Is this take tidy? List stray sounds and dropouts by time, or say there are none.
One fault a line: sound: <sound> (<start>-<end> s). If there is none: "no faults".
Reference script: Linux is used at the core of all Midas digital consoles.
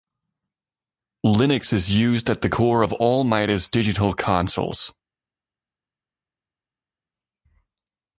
no faults